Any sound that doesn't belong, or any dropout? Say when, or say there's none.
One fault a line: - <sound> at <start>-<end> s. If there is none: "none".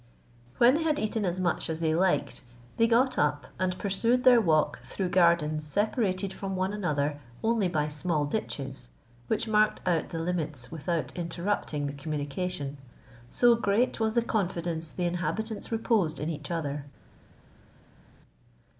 none